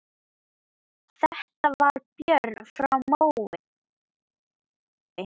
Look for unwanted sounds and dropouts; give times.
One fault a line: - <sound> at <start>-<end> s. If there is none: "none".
none